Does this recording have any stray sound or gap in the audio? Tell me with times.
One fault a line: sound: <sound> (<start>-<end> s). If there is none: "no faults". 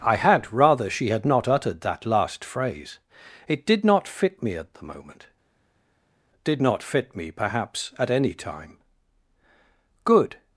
no faults